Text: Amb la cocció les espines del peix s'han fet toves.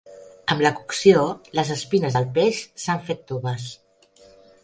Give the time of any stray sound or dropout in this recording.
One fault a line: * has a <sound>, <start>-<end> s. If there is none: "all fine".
all fine